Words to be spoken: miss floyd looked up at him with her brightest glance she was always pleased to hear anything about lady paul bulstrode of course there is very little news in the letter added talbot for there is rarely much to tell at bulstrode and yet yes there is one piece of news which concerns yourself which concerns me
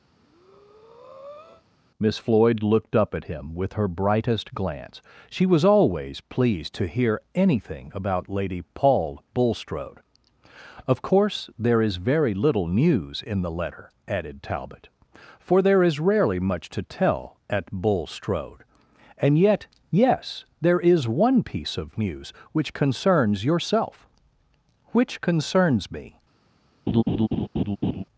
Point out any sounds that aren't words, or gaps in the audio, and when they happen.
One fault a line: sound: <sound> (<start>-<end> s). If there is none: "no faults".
sound: breath (0.1-1.6 s)
sound: laugh (26.9-28.0 s)